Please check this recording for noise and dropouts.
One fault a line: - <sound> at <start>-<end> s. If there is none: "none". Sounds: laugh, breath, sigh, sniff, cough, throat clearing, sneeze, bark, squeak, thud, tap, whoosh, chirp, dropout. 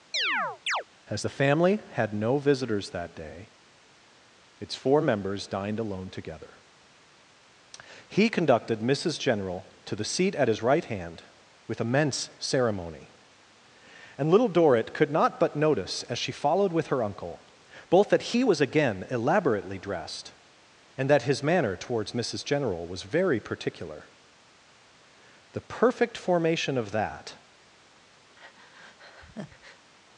- chirp at 0.1-0.8 s
- breath at 28.4-29.9 s